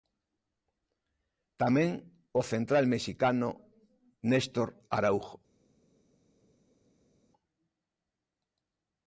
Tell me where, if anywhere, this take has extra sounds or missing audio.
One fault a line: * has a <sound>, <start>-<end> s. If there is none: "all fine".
all fine